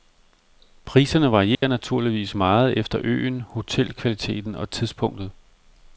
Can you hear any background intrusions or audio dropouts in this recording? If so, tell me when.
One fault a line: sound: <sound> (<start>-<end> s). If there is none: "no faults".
sound: dropout (1.5-1.6 s)